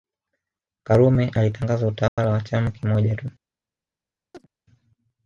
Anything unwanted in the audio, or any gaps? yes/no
yes